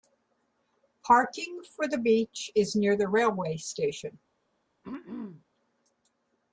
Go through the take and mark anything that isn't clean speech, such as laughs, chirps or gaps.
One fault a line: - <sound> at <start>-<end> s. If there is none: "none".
- throat clearing at 4.8-5.4 s